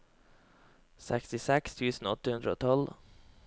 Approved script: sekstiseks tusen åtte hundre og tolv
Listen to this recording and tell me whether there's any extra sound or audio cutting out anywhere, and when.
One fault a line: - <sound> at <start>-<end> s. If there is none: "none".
none